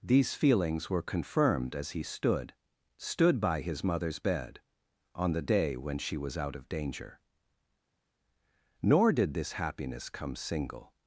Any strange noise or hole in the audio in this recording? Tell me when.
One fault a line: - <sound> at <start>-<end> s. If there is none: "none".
none